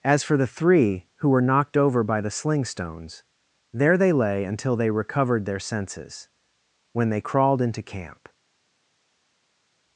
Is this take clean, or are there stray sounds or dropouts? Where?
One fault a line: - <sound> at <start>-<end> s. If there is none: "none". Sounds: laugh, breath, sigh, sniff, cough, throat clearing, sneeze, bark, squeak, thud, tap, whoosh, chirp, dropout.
none